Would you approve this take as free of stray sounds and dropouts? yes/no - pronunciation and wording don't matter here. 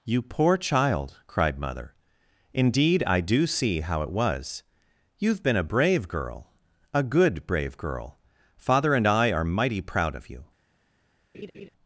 no